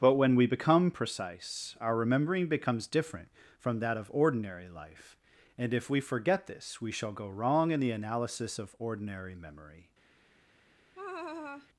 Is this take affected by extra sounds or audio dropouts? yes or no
yes